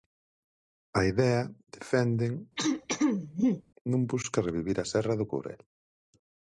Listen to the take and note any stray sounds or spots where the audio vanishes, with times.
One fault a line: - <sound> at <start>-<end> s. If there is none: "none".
- throat clearing at 2.6-3.6 s